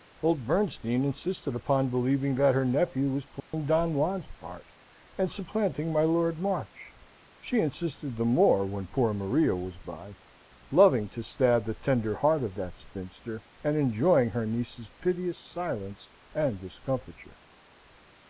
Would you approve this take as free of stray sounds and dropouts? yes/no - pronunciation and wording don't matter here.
no